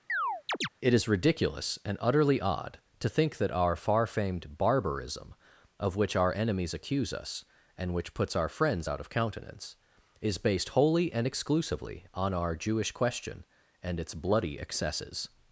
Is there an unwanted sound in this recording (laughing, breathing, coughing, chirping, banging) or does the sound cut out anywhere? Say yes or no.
yes